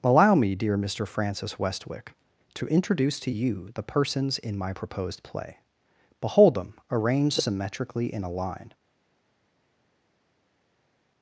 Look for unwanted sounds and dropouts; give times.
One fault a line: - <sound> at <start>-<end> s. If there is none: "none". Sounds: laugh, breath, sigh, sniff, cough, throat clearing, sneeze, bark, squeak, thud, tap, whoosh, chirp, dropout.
none